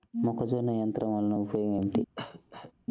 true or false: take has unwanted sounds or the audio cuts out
true